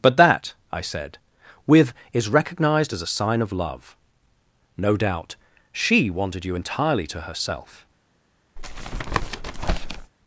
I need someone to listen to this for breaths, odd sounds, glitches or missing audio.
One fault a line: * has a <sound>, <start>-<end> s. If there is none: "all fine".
* has a tap, 8.6-10.1 s